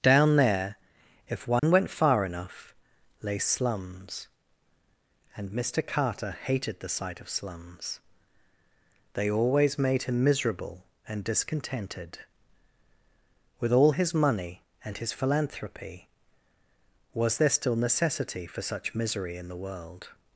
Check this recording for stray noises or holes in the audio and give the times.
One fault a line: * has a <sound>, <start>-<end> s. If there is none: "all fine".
* has a dropout, 1.6-1.6 s